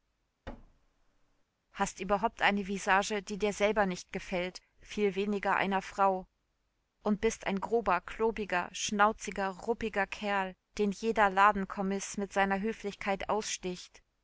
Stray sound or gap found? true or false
true